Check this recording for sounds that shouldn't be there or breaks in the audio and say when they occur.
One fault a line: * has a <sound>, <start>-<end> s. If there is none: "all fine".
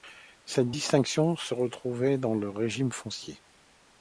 all fine